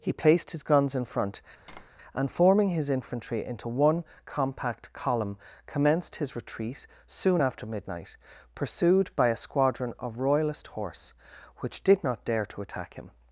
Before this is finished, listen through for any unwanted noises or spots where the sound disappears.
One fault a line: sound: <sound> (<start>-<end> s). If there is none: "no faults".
sound: tap (1.7-1.9 s)